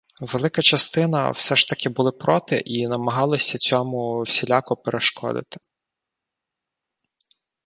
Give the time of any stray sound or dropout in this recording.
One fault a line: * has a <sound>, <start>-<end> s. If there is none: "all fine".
all fine